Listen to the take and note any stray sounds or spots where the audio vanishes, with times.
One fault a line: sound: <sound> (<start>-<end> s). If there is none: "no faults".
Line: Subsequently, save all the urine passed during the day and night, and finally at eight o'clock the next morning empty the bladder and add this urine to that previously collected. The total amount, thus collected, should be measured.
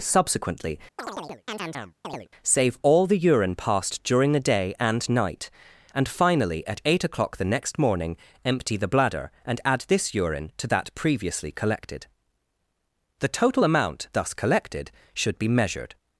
sound: chirp (1.0-2.3 s)